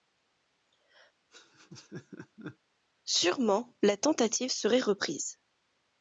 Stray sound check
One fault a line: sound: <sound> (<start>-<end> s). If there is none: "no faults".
sound: laugh (1.3-2.6 s)